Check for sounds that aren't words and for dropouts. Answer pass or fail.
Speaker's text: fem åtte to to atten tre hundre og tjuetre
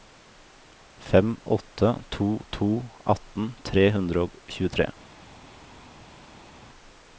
pass